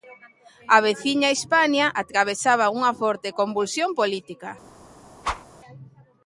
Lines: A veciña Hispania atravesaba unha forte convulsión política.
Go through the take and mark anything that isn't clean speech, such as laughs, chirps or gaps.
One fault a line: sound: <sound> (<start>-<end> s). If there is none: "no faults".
sound: whoosh (5.2-5.5 s)